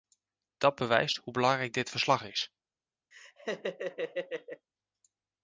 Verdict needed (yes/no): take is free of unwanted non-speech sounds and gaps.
no